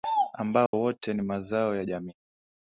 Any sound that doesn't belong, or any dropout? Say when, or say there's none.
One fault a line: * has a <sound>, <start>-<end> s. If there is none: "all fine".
* has a dropout, 0.7-0.7 s